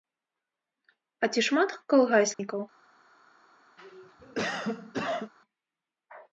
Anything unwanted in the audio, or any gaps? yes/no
yes